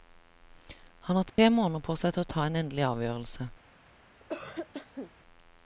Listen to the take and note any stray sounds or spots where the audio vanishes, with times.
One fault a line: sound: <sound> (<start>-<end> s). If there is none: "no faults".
sound: dropout (1.3-1.4 s)
sound: cough (4.2-5.1 s)